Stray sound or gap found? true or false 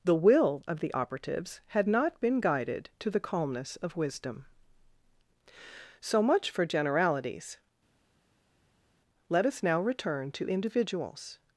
false